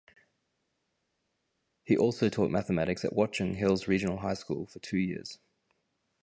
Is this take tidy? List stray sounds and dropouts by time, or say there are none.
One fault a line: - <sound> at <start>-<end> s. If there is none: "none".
none